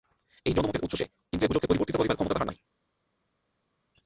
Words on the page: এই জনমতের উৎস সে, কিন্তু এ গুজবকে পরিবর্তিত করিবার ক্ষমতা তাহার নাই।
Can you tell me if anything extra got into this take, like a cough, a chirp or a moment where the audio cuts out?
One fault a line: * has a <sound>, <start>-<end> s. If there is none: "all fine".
all fine